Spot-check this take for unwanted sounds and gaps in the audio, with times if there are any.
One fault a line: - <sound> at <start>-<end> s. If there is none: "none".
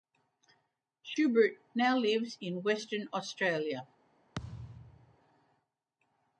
- thud at 4.3-5.2 s